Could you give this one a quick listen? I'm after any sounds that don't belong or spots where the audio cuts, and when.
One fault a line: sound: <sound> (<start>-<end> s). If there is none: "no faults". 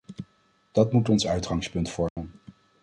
sound: dropout (2.1-2.2 s)